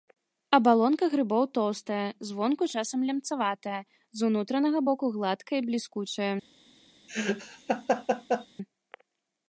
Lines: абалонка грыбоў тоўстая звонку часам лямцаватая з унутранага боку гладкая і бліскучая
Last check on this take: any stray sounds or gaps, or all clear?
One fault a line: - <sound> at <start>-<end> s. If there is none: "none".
- laugh at 7.1-8.5 s